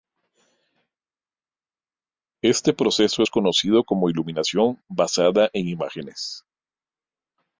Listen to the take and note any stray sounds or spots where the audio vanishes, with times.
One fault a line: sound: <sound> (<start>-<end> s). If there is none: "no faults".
no faults